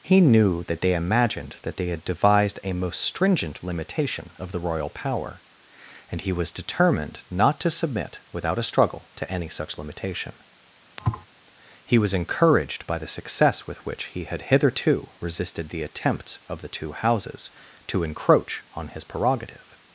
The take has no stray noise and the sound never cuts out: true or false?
false